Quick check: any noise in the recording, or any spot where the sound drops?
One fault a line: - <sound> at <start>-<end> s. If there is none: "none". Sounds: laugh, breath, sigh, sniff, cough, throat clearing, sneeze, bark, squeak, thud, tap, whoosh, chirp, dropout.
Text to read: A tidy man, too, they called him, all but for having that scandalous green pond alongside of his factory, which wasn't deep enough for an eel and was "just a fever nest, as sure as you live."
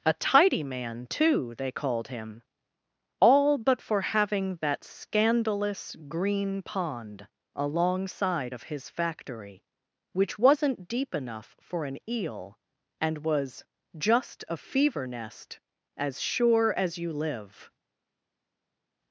none